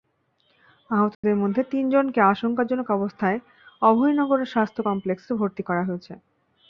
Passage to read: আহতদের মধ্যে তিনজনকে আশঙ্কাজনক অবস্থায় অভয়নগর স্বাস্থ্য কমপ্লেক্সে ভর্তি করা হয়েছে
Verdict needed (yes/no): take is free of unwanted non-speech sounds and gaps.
no